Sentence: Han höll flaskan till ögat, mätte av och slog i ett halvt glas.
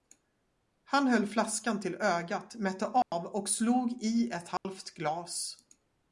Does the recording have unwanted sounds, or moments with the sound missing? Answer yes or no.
yes